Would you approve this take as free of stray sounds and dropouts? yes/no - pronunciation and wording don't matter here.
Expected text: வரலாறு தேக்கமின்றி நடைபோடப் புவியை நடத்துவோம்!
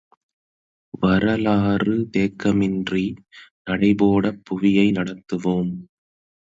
yes